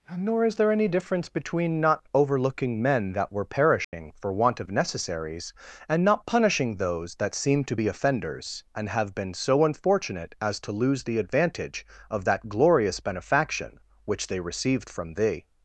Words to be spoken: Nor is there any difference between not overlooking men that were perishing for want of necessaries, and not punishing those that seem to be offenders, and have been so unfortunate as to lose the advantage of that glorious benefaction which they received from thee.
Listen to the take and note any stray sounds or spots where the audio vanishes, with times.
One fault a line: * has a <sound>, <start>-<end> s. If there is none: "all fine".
* has a dropout, 3.8-3.9 s